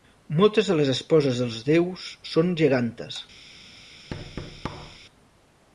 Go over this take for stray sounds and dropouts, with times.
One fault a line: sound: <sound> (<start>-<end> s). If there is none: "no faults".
sound: thud (4.1-5.0 s)